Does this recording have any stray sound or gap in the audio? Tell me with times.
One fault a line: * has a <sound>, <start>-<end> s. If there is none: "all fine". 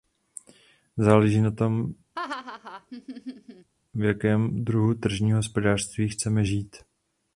* has a laugh, 2.2-3.7 s